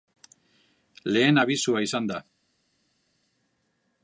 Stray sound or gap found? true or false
false